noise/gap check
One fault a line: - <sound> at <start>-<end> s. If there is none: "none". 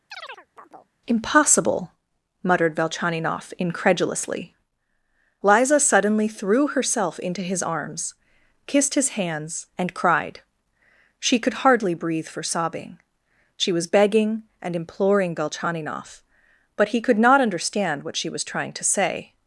- chirp at 0.1-0.9 s